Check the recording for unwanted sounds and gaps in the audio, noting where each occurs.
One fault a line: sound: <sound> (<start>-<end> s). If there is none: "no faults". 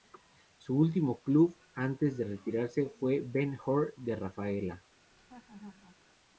sound: laugh (5.1-6.0 s)